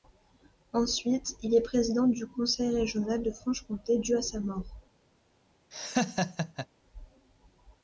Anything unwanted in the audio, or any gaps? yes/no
yes